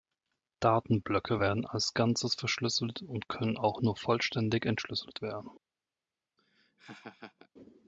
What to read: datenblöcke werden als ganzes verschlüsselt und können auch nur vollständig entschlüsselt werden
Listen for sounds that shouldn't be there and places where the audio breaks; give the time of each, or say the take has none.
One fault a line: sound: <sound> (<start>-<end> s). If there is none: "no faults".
sound: laugh (6.4-7.5 s)